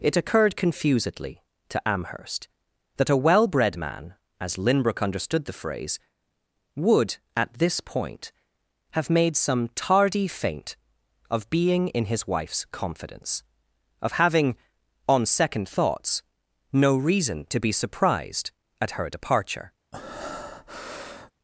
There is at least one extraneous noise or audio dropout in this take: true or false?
true